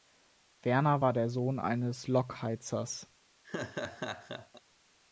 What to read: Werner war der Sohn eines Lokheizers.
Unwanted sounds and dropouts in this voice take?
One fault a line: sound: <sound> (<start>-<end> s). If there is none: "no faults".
sound: laugh (3.4-4.6 s)